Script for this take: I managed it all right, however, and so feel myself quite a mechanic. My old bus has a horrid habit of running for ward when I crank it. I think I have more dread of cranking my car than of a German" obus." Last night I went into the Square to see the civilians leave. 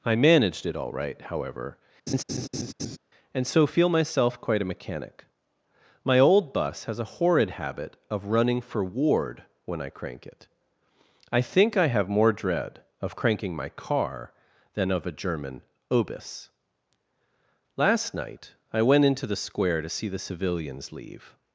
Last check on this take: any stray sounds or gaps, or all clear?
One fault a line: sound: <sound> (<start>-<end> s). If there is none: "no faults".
sound: laugh (2.1-3.0 s)